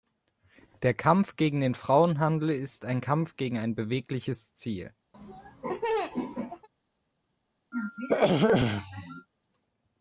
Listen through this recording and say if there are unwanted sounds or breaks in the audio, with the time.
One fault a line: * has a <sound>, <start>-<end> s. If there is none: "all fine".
* has a laugh, 5.1-6.7 s
* has a throat clearing, 7.7-9.3 s